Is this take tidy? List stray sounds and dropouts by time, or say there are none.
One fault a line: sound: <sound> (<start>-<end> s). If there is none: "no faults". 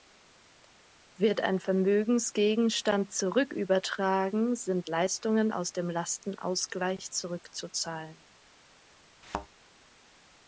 sound: thud (9.2-9.5 s)